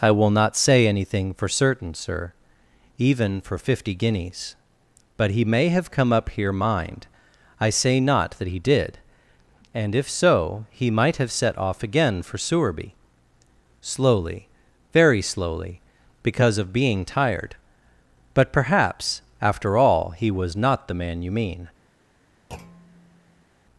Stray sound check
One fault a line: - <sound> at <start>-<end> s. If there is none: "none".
- thud at 22.5-23.5 s